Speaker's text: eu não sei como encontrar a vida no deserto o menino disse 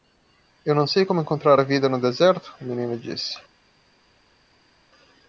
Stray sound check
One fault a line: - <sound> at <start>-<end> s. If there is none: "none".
none